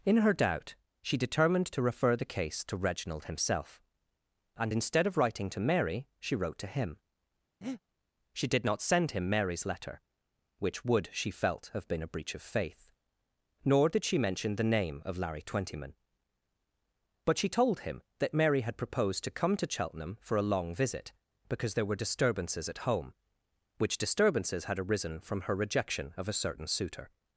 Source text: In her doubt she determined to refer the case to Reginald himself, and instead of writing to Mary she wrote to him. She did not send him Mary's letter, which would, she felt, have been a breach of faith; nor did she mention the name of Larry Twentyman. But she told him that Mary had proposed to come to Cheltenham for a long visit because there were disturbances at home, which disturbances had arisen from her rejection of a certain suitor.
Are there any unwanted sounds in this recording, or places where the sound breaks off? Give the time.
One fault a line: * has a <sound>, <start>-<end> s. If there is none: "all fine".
* has a breath, 7.6-7.8 s